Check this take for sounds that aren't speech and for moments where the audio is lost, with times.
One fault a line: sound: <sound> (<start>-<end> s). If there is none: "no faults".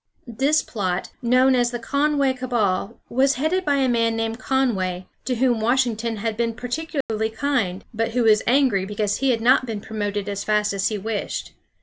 sound: dropout (7.0-7.1 s)